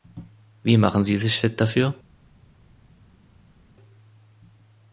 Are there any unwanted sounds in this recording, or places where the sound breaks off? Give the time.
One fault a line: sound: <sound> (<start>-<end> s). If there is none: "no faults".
no faults